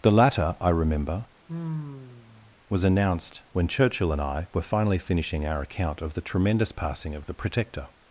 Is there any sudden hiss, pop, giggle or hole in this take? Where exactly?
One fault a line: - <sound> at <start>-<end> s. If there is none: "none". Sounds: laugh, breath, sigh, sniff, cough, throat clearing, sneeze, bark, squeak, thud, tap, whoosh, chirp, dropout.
- sigh at 1.5-2.6 s